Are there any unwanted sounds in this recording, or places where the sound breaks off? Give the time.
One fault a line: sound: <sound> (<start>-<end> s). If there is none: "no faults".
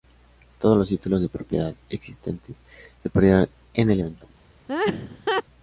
sound: laugh (4.7-5.4 s)